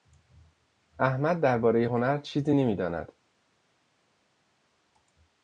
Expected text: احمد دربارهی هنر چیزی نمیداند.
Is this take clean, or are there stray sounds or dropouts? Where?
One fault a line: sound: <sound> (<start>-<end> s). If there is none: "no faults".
no faults